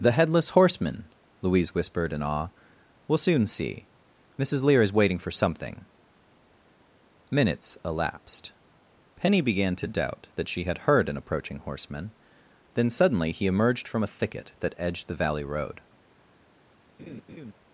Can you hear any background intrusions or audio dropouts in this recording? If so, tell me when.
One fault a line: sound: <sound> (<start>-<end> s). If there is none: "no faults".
sound: laugh (17.0-17.5 s)